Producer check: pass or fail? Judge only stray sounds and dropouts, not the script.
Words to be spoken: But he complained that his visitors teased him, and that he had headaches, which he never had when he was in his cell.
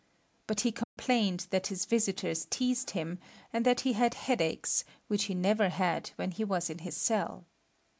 fail